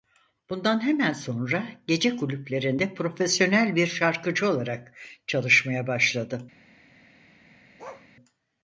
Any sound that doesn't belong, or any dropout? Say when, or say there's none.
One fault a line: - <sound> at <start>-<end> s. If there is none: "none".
- bark at 7.8-8.1 s